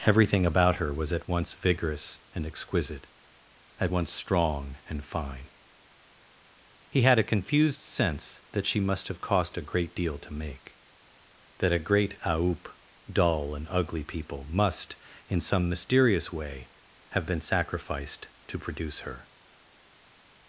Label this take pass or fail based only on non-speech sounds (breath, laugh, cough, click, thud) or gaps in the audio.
pass